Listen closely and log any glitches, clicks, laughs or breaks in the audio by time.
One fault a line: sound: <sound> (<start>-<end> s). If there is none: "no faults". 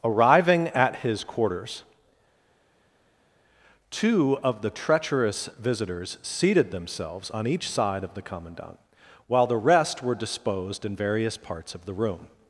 no faults